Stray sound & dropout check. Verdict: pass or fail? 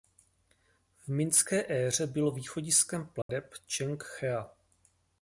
fail